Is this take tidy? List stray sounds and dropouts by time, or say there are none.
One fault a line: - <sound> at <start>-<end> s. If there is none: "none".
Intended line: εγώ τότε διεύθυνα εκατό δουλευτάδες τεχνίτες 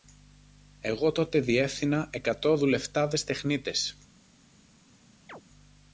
- chirp at 5.3-5.4 s